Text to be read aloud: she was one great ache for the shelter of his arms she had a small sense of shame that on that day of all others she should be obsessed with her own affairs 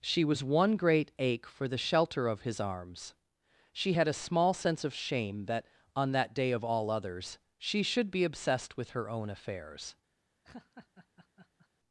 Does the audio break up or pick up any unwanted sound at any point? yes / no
yes